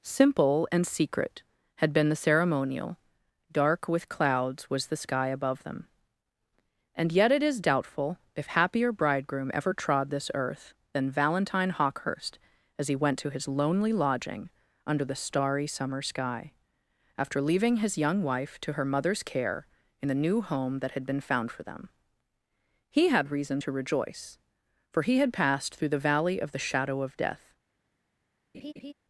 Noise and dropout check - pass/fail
fail